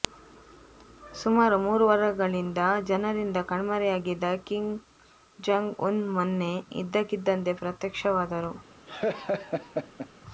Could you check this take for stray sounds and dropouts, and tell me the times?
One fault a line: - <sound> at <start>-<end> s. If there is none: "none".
- laugh at 8.9-10.1 s